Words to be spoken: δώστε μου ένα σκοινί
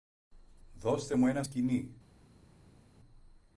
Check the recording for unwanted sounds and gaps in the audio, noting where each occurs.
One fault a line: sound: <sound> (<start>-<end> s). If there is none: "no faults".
no faults